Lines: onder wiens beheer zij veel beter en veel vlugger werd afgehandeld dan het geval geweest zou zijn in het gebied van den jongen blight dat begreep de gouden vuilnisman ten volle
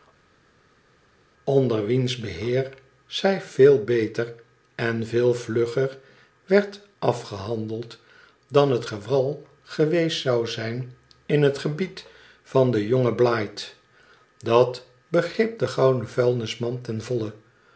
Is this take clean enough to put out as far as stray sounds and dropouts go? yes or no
yes